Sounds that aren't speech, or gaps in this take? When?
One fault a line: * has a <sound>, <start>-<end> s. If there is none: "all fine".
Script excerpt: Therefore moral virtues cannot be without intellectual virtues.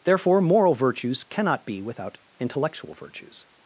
all fine